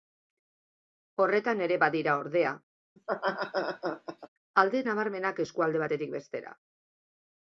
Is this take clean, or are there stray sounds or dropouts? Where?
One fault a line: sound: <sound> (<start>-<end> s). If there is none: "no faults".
sound: laugh (3.0-4.3 s)